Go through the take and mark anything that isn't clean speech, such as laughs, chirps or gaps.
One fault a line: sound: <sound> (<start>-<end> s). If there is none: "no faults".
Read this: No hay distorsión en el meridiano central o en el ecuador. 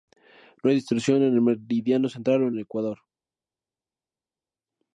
no faults